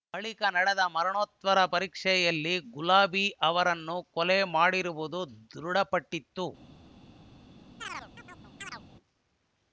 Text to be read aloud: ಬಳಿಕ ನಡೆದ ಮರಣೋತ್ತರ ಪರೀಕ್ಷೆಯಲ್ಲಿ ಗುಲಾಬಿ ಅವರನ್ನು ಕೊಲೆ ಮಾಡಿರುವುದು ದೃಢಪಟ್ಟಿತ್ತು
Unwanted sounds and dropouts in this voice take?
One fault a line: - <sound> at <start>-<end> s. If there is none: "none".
- chirp at 7.8-8.8 s